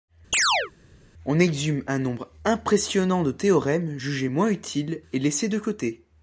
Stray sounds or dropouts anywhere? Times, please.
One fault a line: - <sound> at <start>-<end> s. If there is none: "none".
- chirp at 0.3-0.7 s